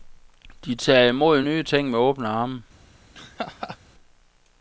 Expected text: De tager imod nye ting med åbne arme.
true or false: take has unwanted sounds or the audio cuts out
true